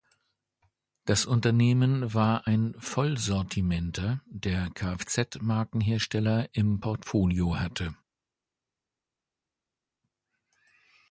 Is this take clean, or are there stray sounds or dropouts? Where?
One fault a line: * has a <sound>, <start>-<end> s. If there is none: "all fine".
all fine